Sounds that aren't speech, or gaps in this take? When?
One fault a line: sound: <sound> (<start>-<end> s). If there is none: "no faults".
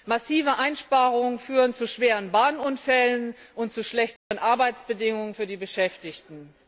sound: dropout (4.2-4.3 s)